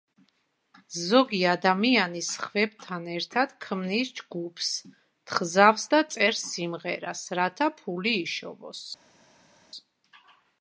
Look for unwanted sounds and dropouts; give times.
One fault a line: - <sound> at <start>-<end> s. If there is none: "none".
none